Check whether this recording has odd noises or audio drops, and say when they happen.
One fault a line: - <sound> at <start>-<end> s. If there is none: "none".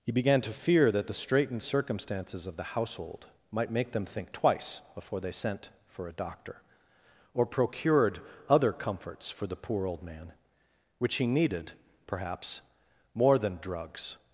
none